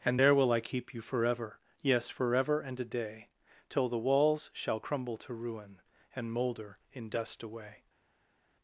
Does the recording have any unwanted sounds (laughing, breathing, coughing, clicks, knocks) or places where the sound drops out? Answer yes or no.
no